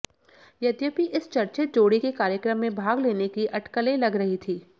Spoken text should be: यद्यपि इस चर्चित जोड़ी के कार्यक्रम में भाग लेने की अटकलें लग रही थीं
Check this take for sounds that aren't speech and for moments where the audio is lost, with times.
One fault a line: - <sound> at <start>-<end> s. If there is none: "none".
none